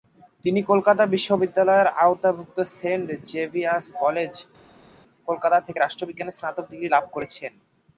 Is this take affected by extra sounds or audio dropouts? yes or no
no